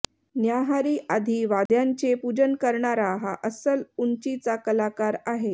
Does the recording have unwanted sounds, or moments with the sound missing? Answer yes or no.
yes